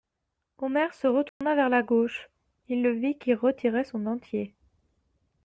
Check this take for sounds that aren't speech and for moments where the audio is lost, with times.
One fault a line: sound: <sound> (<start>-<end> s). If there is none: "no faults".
sound: dropout (1.3-1.4 s)